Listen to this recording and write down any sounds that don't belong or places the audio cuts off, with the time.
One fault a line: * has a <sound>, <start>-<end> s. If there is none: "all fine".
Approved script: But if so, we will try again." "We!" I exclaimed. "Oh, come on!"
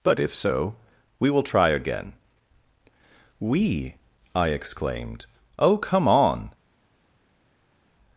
all fine